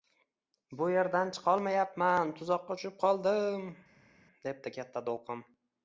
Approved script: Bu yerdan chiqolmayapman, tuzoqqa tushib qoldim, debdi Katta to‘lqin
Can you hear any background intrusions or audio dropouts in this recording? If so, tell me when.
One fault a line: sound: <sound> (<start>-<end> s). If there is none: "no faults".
no faults